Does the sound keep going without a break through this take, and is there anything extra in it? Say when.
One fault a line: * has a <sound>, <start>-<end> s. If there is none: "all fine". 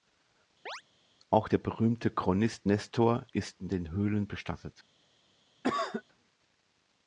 * has a chirp, 0.7-0.8 s
* has a cough, 5.6-6.0 s